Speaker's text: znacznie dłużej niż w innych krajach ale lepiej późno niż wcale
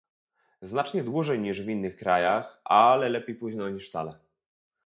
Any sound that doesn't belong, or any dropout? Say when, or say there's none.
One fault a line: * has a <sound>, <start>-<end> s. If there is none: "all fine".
all fine